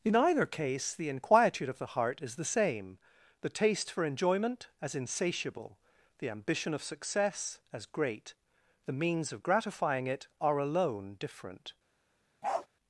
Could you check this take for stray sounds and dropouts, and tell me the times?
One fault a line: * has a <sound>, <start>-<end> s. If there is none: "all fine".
* has a bark, 12.4-12.7 s